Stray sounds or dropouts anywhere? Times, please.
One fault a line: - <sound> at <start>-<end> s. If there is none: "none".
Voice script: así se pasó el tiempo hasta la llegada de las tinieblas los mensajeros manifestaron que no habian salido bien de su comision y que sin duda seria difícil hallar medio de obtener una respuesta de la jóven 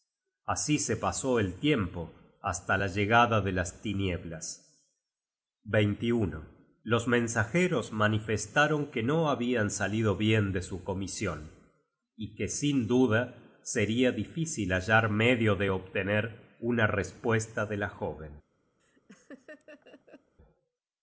- laugh at 18.8-20.3 s